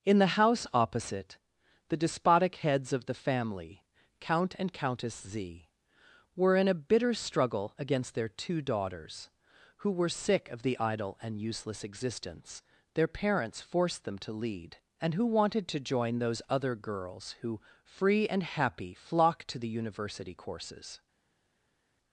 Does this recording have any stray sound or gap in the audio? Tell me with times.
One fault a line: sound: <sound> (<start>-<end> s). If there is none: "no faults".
no faults